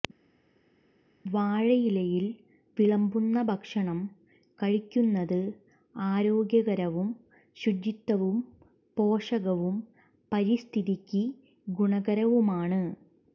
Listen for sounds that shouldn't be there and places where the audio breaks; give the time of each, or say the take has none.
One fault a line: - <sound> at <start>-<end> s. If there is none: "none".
none